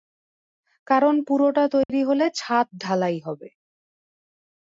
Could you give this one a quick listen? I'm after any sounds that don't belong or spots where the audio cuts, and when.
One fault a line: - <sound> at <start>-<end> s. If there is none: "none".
- dropout at 1.8-1.9 s